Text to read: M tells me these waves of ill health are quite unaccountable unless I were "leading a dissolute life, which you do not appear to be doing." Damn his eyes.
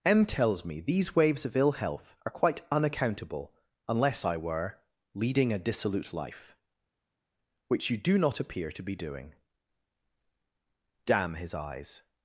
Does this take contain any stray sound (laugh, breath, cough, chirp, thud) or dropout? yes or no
no